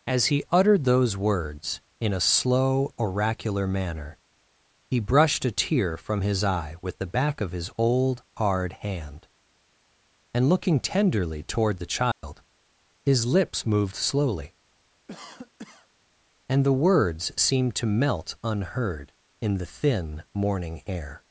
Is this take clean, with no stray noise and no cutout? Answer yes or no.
no